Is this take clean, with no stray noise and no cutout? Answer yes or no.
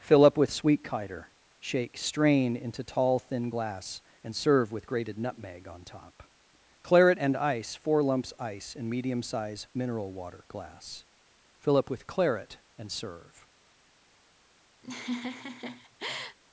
no